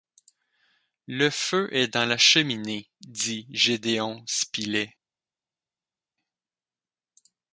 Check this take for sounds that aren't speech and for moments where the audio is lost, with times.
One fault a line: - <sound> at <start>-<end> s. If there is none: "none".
none